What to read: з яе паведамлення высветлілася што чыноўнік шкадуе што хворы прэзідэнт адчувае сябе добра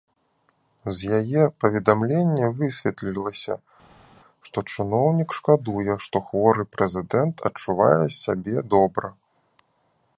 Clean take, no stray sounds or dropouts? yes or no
yes